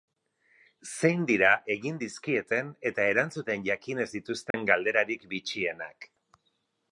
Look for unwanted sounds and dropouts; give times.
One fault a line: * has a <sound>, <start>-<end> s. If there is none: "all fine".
* has a dropout, 4.5-4.5 s